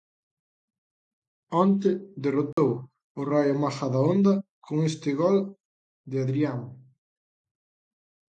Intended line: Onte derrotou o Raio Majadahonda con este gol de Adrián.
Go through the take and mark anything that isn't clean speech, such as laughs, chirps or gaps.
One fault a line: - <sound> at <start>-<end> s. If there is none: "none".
- dropout at 2.5-2.6 s